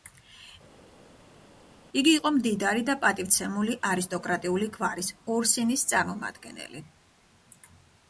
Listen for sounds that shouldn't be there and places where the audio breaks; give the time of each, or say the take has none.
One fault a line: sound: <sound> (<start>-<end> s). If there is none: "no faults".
no faults